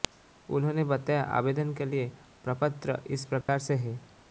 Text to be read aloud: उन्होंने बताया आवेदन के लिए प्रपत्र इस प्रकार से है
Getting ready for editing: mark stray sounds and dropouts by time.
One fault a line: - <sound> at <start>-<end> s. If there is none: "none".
- dropout at 3.4-3.5 s